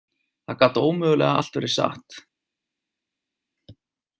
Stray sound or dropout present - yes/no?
no